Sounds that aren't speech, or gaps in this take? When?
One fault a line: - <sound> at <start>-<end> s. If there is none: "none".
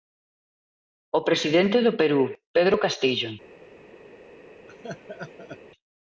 - laugh at 4.7-5.6 s